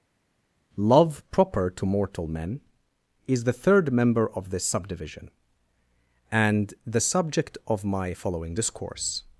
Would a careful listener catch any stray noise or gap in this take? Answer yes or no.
no